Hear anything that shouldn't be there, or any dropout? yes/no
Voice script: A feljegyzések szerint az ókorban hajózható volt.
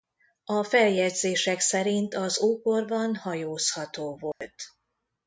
yes